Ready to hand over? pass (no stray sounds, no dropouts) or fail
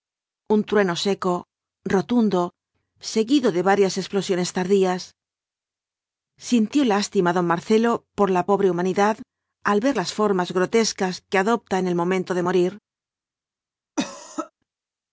fail